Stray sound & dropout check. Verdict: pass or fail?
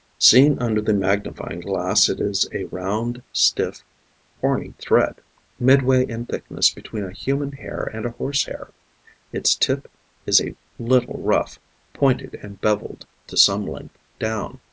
pass